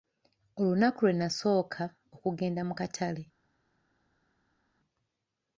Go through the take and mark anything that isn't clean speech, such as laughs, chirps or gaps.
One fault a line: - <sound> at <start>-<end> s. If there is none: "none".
none